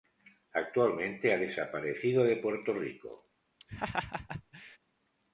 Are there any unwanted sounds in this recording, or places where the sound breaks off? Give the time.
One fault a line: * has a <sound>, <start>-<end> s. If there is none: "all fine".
* has a laugh, 3.6-4.8 s